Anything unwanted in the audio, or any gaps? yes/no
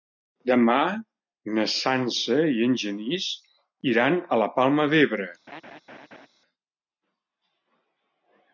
yes